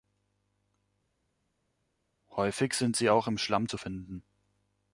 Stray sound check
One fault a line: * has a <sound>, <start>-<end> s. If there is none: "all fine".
all fine